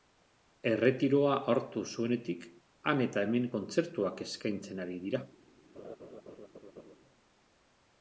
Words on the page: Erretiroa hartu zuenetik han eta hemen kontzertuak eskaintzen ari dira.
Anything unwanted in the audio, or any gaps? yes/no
yes